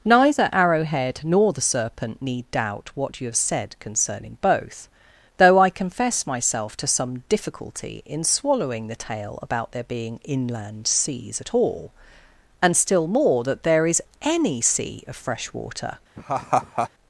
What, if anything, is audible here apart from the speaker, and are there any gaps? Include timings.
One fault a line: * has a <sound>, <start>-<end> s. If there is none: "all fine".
* has a laugh, 16.2-16.9 s